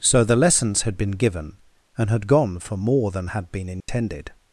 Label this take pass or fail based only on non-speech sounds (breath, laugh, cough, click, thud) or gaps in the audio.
fail